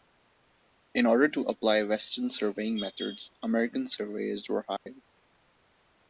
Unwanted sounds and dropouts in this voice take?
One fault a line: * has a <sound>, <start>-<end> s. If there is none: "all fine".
* has a dropout, 4.8-4.9 s